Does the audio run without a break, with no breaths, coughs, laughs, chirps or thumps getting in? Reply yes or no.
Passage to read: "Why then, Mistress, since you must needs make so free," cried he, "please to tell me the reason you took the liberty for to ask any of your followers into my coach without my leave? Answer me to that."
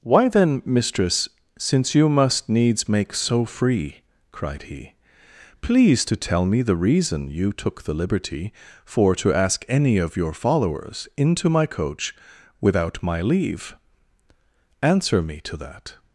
yes